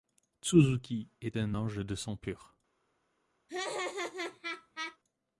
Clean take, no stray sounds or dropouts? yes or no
no